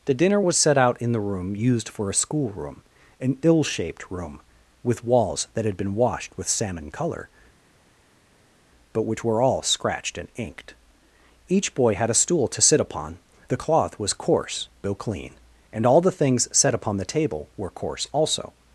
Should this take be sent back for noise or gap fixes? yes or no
no